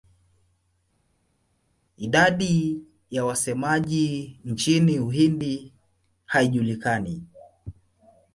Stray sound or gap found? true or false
false